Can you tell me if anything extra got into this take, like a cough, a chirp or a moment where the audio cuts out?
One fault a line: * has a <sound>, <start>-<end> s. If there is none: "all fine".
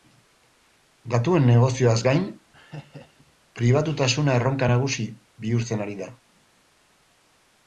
* has a laugh, 2.5-3.3 s